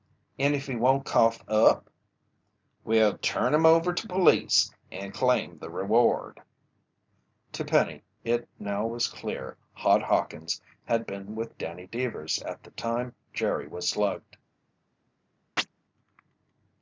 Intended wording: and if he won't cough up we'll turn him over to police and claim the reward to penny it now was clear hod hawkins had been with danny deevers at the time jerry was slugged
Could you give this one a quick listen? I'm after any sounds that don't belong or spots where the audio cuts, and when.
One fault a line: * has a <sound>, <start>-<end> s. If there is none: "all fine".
* has a chirp, 15.6-15.7 s